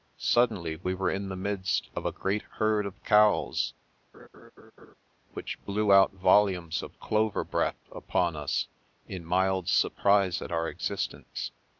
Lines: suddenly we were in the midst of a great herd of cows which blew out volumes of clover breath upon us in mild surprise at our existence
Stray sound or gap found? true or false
true